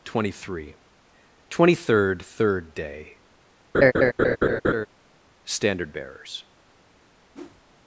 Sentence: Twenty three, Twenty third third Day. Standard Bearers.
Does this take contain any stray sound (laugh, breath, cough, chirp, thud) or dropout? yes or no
yes